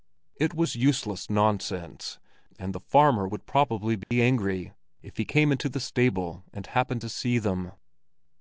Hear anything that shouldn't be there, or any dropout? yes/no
yes